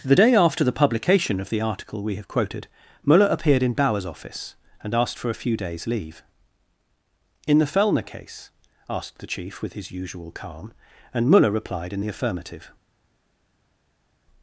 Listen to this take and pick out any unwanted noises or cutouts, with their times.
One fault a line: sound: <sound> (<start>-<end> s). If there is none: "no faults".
no faults